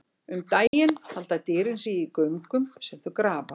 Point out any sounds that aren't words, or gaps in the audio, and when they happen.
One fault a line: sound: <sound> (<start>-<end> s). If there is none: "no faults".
sound: dropout (0.7-0.7 s)